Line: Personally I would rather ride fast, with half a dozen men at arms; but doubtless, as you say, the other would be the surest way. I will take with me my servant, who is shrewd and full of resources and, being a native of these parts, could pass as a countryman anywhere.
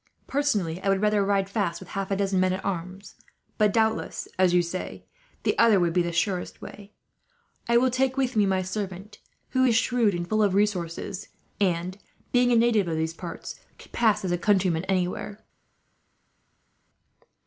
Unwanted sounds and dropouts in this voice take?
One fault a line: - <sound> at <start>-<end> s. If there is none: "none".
none